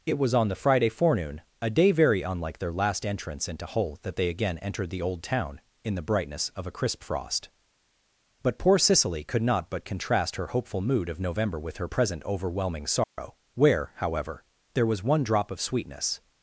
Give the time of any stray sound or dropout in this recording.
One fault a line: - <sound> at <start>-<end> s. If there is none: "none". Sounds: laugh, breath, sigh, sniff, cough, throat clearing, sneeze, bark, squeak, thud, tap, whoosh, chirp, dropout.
- dropout at 13.0-13.2 s